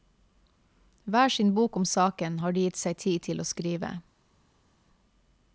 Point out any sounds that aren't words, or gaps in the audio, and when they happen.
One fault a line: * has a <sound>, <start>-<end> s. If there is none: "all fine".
all fine